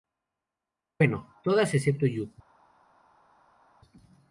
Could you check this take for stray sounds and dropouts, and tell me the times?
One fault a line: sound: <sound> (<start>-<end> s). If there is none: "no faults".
no faults